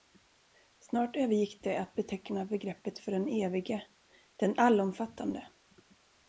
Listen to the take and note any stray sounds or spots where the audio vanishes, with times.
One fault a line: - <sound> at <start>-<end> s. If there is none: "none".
none